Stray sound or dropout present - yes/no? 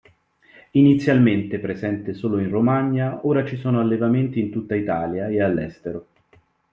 no